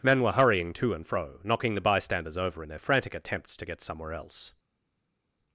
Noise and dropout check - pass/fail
pass